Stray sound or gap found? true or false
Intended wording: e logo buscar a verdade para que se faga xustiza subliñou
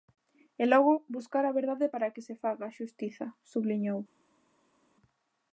false